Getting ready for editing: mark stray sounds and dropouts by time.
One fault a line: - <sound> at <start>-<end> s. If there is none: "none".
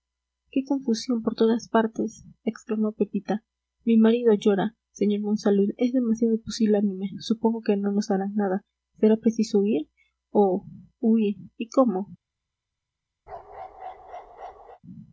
- bark at 13.3-14.8 s